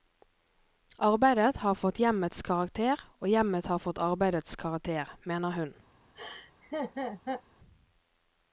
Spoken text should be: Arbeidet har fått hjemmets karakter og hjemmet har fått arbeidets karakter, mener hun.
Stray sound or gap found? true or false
true